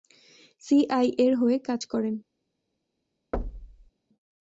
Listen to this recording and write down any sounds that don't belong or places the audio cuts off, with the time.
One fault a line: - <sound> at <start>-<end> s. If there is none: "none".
- thud at 3.3-3.9 s